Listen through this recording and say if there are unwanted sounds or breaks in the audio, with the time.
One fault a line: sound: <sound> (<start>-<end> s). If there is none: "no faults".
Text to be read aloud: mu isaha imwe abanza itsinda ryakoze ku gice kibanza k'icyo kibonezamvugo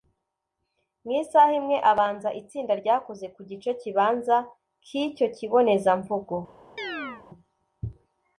sound: chirp (6.8-7.2 s)